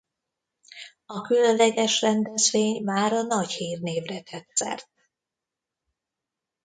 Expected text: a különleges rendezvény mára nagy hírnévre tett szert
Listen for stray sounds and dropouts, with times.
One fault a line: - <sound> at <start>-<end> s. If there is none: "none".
none